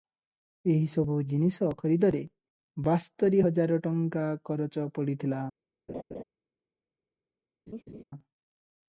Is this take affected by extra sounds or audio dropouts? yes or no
yes